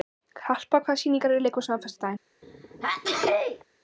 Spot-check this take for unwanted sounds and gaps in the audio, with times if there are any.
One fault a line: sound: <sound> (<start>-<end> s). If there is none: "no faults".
sound: sneeze (2.4-3.6 s)